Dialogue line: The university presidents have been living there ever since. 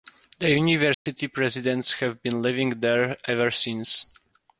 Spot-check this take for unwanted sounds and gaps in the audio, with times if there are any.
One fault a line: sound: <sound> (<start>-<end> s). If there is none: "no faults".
sound: dropout (0.9-1.1 s)